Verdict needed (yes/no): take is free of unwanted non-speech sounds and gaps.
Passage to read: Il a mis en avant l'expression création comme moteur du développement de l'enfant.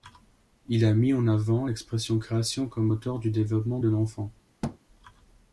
no